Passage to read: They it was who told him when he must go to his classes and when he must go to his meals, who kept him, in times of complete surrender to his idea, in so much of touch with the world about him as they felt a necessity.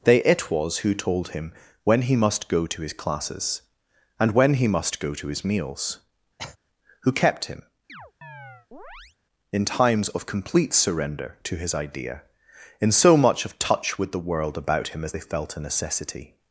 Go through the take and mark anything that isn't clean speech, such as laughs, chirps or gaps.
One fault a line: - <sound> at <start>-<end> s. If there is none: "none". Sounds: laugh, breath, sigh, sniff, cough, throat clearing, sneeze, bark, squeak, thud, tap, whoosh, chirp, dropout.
- cough at 6.4-6.6 s
- chirp at 7.9-9.2 s